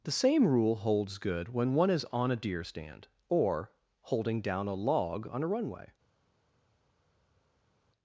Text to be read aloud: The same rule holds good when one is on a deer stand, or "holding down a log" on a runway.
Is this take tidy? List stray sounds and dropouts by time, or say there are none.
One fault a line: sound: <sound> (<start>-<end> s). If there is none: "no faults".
no faults